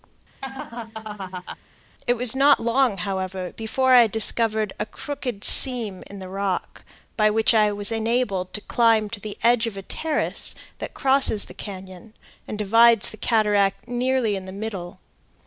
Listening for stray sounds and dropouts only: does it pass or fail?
fail